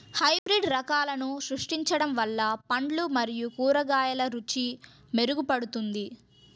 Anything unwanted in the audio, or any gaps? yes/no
yes